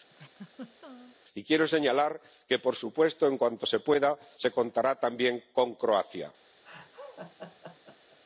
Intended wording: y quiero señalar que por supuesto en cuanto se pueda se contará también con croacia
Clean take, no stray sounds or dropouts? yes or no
no